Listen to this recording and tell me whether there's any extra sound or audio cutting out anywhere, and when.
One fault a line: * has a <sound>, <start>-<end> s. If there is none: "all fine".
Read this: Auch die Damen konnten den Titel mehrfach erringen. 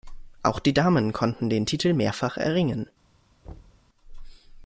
* has a thud, 3.4-3.9 s